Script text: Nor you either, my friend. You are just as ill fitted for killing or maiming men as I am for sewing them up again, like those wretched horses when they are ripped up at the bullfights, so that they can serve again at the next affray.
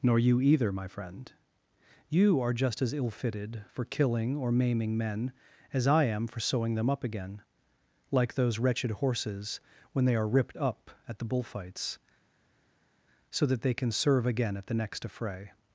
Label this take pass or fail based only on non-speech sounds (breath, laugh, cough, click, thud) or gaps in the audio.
pass